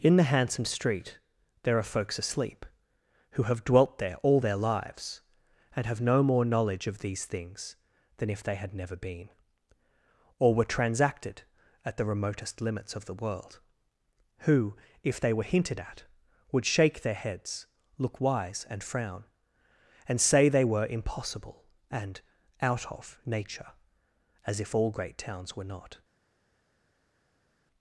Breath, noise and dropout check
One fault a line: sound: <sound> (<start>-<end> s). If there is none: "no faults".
no faults